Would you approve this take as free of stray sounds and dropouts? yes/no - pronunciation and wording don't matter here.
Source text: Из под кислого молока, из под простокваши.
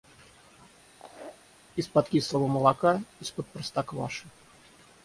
no